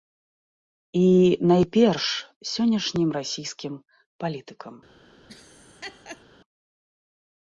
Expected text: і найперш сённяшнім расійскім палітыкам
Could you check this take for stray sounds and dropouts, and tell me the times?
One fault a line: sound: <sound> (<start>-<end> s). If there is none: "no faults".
sound: laugh (5.3-6.2 s)